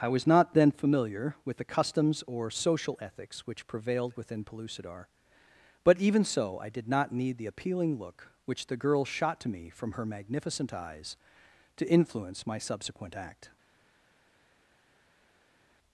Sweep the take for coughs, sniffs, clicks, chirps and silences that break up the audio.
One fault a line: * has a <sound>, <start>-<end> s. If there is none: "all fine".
all fine